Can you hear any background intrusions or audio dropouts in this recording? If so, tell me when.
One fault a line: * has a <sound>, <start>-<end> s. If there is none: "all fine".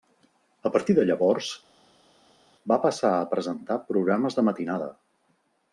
all fine